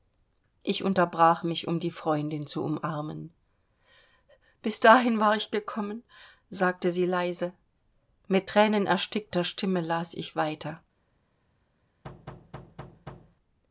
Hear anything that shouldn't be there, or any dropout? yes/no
yes